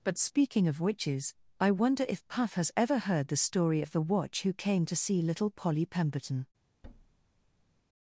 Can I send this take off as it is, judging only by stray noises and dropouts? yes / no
no